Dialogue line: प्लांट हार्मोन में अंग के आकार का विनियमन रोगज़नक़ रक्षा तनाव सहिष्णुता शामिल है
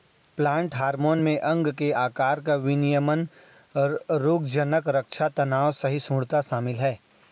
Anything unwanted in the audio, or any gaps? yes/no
no